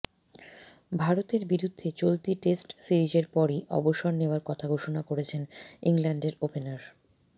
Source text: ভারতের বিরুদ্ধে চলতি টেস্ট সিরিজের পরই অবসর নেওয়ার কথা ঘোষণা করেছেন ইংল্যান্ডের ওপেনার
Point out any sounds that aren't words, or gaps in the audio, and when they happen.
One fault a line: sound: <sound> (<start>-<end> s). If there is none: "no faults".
no faults